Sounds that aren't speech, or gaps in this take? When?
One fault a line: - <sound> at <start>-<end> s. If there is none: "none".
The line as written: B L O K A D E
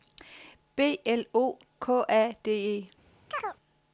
- chirp at 3.3-3.6 s